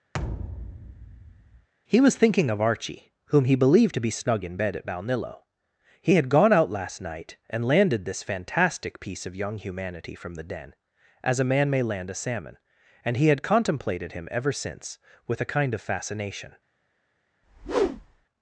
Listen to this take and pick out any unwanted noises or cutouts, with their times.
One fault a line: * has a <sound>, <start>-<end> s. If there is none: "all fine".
* has a thud, 0.1-1.7 s
* has a whoosh, 17.4-18.2 s